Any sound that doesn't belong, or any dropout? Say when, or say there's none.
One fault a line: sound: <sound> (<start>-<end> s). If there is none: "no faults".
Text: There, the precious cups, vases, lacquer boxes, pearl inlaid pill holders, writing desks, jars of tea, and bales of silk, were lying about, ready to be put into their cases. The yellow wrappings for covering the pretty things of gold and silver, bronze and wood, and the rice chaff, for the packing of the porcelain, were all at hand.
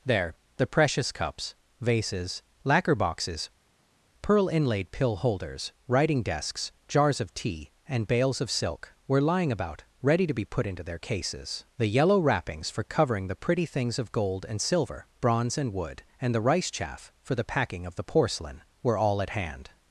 no faults